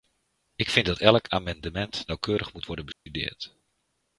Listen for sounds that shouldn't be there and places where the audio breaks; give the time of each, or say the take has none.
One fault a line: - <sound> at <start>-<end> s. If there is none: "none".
- dropout at 2.9-3.1 s